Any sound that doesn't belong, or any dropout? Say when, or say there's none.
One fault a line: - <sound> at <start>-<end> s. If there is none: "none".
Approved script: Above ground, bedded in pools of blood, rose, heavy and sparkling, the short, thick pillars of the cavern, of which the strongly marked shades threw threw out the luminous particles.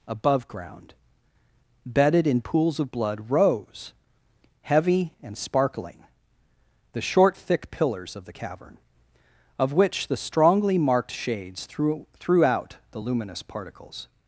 none